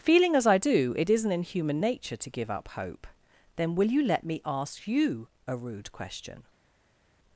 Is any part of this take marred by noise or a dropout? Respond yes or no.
no